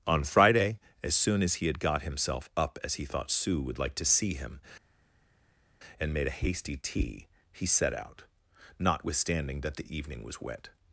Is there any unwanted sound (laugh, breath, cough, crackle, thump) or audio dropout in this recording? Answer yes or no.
no